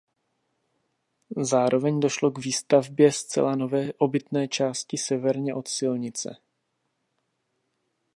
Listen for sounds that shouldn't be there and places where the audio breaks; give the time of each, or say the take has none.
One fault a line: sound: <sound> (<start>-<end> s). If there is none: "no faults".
no faults